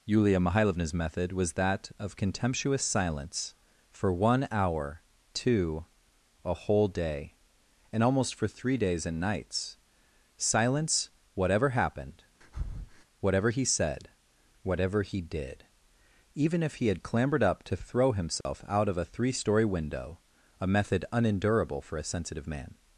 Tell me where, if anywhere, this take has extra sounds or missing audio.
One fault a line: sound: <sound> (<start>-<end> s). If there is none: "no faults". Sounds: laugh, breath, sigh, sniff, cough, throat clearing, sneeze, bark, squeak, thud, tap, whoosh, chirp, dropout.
sound: breath (12.4-13.0 s)
sound: dropout (18.4-18.5 s)